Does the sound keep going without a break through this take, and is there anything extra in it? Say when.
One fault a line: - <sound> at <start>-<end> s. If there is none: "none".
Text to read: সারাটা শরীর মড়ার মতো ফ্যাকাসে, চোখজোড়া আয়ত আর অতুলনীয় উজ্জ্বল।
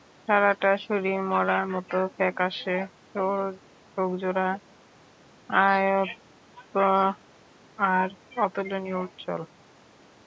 none